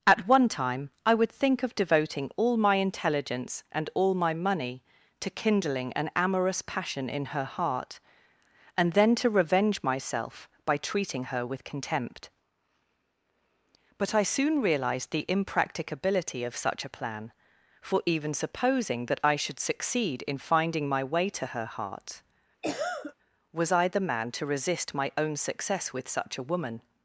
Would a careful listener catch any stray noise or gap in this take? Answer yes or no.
yes